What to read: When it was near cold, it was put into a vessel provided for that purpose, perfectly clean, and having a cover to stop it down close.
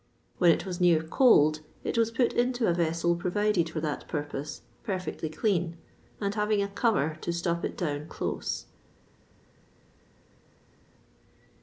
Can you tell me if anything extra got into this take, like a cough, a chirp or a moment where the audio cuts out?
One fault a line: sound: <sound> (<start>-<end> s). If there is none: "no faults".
no faults